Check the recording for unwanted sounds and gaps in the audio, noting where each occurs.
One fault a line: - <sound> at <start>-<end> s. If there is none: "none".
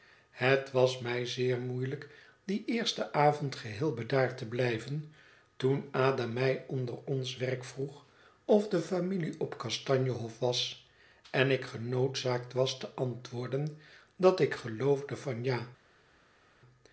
none